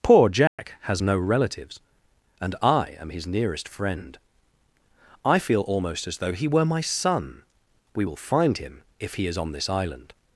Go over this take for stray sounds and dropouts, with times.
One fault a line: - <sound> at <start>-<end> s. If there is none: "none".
- dropout at 0.5-0.6 s